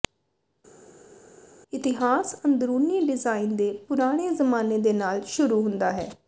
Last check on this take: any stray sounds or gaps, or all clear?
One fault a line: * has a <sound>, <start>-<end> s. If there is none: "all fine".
all fine